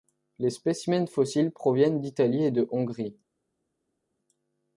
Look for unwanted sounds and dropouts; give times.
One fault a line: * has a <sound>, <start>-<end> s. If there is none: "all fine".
all fine